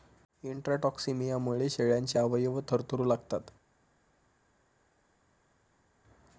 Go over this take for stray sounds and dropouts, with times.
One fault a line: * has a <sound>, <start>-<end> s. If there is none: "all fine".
all fine